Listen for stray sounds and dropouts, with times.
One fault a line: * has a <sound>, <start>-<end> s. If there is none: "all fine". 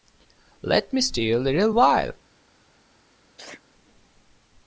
* has a sneeze, 3.4-3.6 s